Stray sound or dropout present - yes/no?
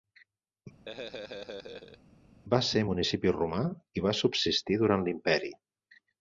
yes